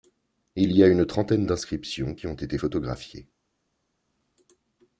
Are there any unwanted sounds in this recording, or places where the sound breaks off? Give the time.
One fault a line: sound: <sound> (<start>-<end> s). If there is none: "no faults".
no faults